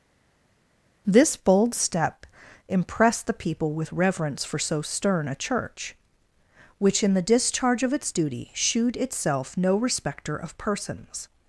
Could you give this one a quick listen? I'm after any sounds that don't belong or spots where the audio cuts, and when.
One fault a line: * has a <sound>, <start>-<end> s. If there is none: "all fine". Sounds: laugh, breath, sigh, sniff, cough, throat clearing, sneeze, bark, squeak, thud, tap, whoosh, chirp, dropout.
all fine